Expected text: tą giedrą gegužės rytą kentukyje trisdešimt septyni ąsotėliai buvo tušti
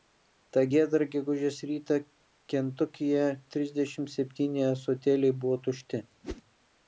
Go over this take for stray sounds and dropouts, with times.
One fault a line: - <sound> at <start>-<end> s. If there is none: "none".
- whoosh at 6.2-6.4 s